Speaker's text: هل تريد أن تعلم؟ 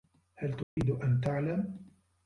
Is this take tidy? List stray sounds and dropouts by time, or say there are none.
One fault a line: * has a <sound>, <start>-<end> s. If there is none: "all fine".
* has a dropout, 0.6-0.8 s